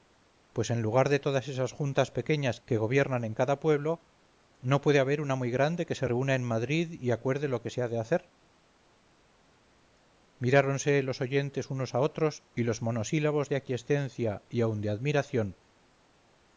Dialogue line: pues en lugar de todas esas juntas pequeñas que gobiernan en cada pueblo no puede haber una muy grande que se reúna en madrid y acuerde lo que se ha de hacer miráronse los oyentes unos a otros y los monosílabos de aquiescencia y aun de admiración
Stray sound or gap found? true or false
false